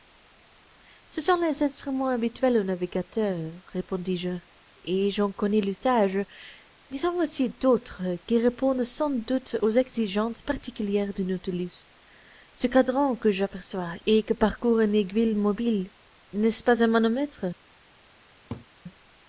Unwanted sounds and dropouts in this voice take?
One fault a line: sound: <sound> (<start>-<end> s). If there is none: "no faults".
sound: laugh (18.5-18.7 s)